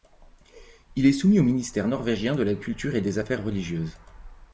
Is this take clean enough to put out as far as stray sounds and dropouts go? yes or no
yes